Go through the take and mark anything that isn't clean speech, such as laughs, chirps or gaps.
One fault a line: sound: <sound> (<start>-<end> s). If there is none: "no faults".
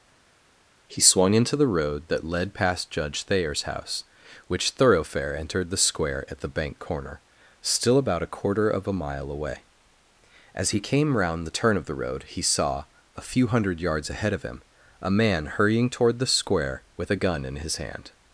no faults